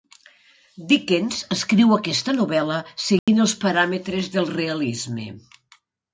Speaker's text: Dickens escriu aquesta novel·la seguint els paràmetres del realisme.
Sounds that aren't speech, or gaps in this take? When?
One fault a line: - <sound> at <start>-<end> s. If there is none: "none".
- dropout at 3.2-3.3 s